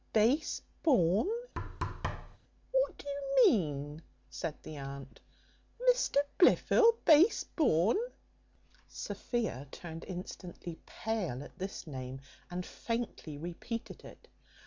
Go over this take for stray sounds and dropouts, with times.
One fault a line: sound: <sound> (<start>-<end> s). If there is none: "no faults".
sound: thud (1.6-2.4 s)